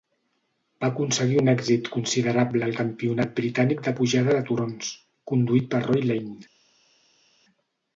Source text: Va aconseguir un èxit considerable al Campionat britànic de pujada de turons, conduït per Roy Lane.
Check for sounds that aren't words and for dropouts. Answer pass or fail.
pass